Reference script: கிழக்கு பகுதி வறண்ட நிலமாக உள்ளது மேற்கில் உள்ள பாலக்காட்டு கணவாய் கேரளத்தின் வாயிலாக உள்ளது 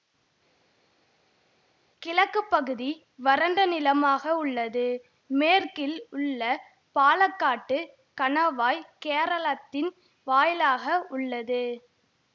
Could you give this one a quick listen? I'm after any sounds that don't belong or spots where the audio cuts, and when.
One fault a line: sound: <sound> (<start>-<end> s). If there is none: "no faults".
no faults